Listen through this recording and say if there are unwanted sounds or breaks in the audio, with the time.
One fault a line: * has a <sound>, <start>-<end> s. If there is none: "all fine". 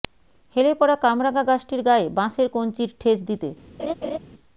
* has a laugh, 3.8-4.2 s